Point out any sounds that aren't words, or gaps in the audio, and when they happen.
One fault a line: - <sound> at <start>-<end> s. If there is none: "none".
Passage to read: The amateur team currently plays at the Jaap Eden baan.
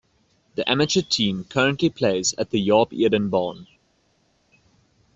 none